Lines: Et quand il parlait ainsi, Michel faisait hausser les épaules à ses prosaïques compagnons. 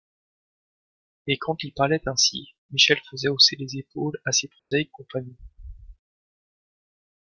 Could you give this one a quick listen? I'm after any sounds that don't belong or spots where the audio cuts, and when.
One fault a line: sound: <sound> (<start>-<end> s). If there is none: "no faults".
sound: dropout (4.6-4.7 s)